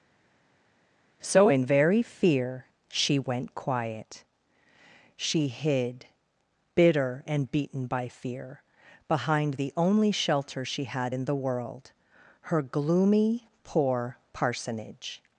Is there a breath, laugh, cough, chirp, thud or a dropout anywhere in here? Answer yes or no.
no